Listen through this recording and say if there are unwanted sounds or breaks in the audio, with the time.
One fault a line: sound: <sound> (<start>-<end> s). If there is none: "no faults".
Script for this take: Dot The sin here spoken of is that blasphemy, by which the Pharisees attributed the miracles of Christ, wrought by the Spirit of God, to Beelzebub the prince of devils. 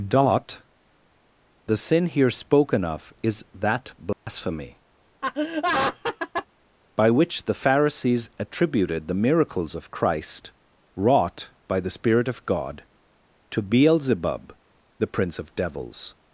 sound: dropout (4.1-4.3 s)
sound: laugh (5.2-6.5 s)